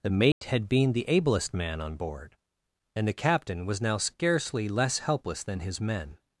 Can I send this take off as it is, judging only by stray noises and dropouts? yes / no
no